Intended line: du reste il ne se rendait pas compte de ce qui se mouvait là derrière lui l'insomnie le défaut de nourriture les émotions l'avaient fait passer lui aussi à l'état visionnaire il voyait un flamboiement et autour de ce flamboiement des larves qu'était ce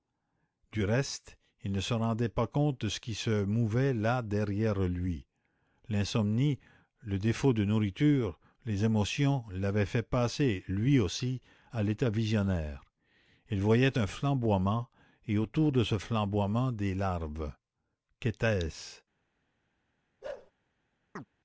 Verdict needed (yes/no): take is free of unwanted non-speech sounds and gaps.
no